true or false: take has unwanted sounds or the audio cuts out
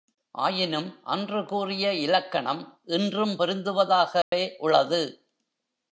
true